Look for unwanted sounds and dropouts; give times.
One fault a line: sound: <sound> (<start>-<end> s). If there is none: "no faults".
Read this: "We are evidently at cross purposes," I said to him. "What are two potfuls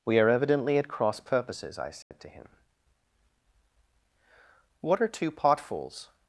sound: dropout (2.0-2.1 s)